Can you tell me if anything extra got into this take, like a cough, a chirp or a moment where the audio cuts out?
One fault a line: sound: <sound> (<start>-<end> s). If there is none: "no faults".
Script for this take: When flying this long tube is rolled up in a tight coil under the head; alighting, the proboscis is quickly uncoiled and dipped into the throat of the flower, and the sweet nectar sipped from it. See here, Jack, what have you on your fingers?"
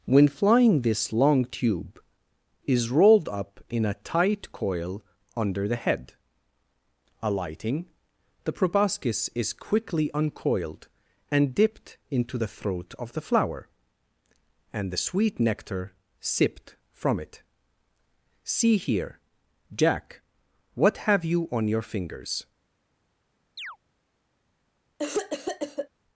sound: chirp (23.6-23.8 s)
sound: cough (25.0-25.9 s)